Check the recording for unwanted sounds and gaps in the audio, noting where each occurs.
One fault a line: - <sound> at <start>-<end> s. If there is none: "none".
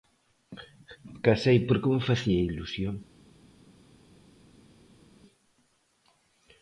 none